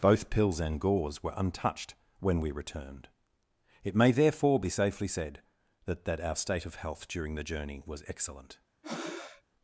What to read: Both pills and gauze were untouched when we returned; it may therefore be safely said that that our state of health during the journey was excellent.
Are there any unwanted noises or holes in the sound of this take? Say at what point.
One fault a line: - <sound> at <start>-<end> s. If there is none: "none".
- breath at 8.8-9.4 s